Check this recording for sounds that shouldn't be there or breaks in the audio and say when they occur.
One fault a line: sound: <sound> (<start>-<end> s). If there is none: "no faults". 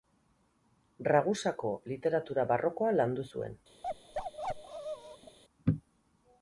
sound: bark (3.8-5.4 s)